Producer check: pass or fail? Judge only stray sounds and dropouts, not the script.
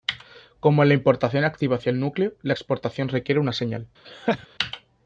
fail